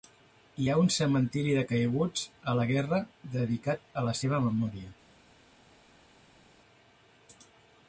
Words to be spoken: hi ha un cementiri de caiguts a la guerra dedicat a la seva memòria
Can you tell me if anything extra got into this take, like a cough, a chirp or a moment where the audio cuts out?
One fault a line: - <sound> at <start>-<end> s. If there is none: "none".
none